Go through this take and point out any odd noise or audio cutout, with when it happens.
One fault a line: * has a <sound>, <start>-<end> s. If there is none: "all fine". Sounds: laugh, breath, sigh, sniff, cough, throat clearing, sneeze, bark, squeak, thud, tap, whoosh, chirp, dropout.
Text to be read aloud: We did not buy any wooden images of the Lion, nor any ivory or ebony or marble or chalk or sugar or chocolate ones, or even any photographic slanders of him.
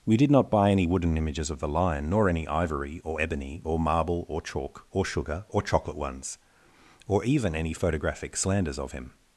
all fine